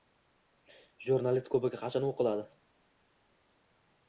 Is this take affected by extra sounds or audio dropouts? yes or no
no